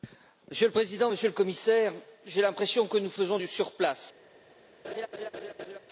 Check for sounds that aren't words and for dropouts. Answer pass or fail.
fail